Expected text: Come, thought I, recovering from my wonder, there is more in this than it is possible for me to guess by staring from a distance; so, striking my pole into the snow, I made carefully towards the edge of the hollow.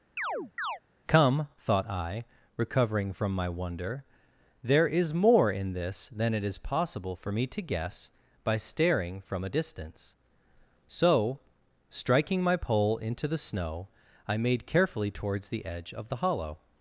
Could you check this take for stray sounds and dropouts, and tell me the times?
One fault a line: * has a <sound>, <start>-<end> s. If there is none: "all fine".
* has a chirp, 0.2-0.8 s